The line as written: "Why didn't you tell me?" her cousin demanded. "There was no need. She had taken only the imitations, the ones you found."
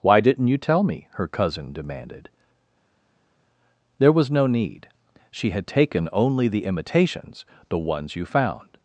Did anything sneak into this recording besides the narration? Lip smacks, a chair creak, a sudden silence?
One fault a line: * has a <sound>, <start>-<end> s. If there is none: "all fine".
all fine